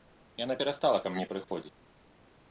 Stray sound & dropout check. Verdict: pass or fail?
fail